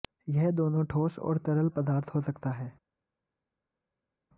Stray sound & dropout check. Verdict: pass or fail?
pass